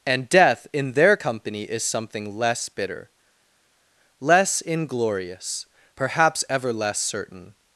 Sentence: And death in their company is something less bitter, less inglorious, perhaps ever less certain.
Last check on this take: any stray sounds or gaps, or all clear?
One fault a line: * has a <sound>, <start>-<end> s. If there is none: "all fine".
all fine